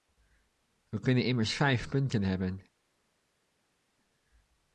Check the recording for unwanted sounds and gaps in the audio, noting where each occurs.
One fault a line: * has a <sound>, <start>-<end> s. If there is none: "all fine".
all fine